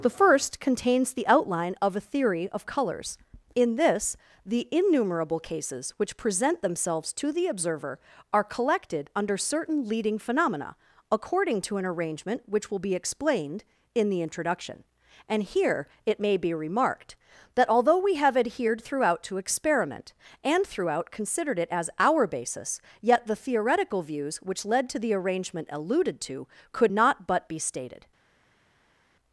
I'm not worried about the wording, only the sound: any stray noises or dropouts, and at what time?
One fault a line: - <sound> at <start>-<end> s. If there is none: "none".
none